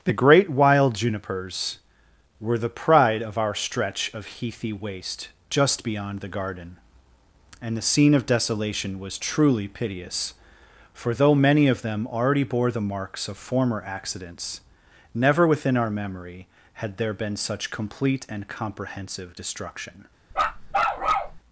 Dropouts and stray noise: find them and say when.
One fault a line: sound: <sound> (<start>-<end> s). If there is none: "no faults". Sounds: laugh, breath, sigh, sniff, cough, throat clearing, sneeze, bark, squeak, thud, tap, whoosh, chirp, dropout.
sound: bark (20.3-21.4 s)